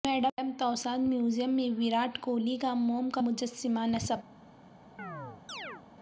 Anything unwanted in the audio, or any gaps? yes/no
yes